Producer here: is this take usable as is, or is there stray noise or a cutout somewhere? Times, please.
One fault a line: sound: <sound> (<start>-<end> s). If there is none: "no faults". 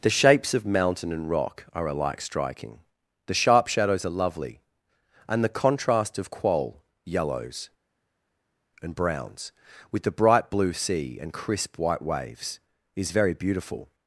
no faults